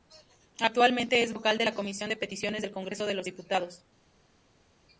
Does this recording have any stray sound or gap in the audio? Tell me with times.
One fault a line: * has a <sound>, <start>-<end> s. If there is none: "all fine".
all fine